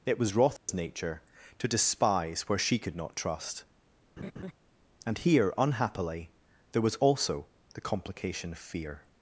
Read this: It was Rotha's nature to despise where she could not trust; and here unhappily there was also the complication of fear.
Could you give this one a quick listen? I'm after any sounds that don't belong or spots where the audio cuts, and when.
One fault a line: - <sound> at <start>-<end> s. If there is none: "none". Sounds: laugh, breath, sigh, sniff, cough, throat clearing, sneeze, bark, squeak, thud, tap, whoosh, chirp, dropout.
- dropout at 0.6-0.7 s
- laugh at 4.2-4.5 s